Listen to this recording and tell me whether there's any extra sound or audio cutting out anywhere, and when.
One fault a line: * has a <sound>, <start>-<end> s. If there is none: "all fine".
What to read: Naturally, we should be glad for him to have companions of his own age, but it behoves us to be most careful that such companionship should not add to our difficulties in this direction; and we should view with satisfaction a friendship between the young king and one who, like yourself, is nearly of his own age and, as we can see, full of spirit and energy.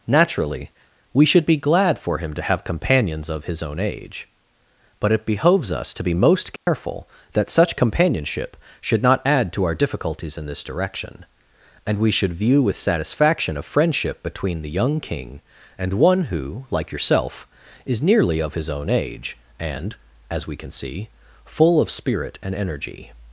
* has a dropout, 6.6-6.7 s